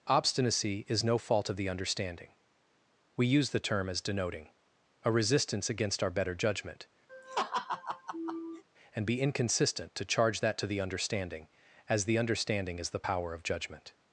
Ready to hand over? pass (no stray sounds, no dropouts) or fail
fail